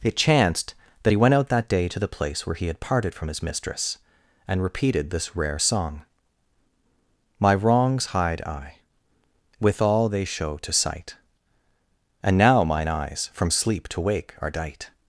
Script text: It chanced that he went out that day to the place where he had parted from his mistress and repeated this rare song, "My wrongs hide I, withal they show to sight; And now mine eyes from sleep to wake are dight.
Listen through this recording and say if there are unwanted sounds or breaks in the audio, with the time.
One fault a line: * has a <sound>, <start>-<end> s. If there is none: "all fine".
all fine